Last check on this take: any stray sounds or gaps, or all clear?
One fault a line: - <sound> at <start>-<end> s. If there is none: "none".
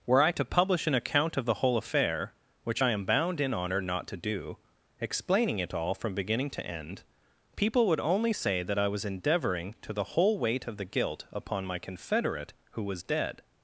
none